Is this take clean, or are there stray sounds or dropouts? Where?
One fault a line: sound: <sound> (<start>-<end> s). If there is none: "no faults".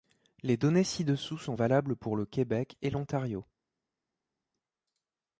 no faults